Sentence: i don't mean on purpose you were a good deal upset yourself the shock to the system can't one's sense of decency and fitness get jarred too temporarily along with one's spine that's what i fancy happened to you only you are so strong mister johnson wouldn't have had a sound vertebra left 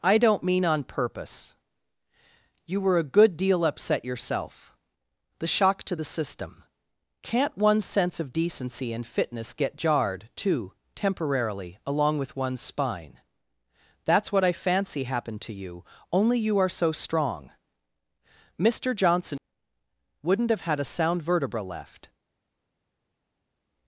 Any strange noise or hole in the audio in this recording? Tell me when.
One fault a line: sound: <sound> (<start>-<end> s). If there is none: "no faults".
no faults